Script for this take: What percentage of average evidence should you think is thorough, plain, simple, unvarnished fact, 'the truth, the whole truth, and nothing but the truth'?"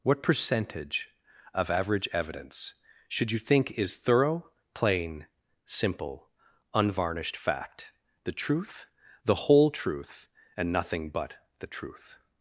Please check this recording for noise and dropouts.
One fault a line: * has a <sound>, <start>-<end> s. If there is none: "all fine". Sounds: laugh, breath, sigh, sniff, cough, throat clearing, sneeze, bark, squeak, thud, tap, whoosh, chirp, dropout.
all fine